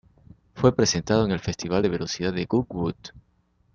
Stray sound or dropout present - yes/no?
no